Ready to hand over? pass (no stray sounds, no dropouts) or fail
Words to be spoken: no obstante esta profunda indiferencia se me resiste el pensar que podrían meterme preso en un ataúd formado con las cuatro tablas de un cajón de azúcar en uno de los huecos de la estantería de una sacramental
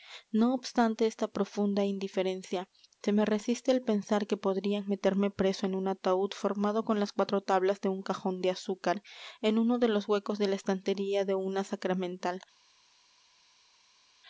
pass